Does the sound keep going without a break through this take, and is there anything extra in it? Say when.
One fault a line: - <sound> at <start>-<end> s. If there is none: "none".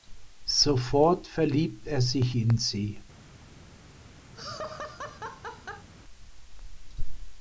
- laugh at 4.3-5.9 s